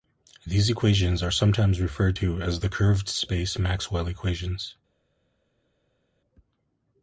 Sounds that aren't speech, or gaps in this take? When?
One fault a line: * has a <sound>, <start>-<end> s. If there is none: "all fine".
all fine